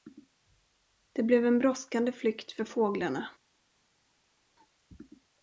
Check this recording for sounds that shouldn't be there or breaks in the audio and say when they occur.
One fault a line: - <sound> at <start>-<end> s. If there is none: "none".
none